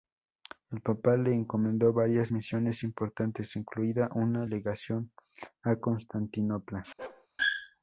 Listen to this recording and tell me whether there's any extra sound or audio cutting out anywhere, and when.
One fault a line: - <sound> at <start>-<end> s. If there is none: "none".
- bark at 7.0-7.3 s